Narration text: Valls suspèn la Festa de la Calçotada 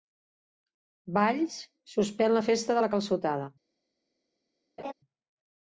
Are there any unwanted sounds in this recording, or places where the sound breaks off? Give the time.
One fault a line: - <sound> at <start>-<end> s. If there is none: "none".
- laugh at 4.8-4.9 s